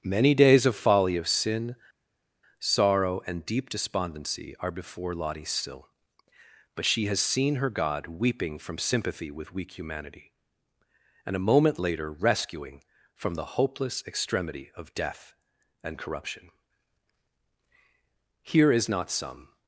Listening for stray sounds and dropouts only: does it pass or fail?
pass